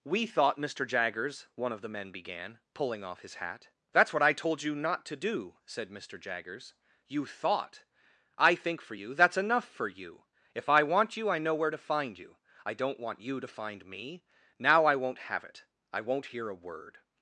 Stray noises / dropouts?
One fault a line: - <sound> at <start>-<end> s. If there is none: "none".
none